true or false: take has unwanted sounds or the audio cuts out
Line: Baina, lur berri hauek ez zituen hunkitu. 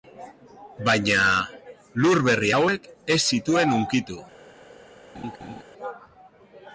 true